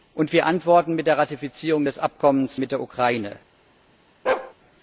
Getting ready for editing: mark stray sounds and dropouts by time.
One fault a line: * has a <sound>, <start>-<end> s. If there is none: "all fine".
* has a bark, 4.2-4.5 s